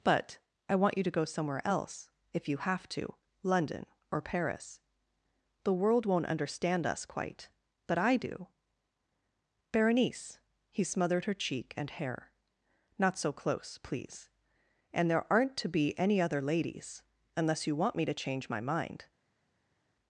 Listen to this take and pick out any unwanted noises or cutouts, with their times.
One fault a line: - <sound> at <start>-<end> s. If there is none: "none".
none